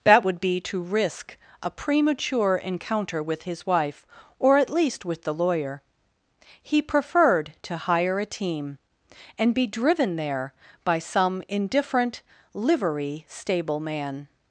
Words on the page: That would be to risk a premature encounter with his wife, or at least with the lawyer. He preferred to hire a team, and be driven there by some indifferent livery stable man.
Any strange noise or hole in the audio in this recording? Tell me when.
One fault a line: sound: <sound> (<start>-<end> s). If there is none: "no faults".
no faults